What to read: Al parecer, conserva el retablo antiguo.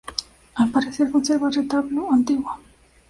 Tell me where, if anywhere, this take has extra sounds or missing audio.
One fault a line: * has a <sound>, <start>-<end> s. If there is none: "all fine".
all fine